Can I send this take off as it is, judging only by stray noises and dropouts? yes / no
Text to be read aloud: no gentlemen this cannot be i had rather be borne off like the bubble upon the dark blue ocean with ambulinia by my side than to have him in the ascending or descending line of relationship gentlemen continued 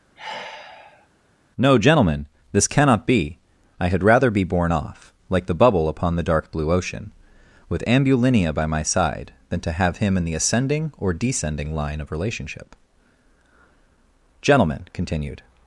no